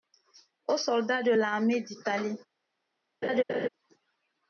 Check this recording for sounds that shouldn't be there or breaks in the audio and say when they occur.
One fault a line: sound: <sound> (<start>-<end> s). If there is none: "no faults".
sound: laugh (3.2-3.7 s)